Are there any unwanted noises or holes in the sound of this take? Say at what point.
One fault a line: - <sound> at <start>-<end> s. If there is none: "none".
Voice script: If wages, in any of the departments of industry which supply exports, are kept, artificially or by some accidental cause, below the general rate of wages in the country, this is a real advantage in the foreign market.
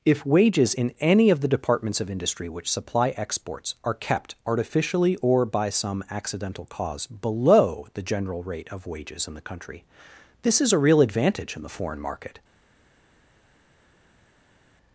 none